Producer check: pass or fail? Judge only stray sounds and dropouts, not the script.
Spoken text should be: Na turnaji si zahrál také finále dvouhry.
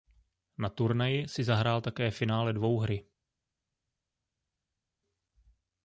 pass